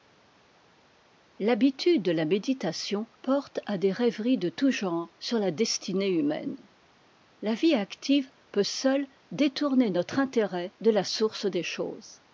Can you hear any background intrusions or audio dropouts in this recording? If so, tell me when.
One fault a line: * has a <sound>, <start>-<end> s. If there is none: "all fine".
all fine